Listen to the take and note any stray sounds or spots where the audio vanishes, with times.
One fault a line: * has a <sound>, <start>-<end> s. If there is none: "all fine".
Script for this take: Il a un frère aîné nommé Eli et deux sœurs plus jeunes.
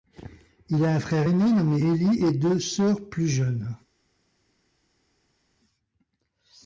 all fine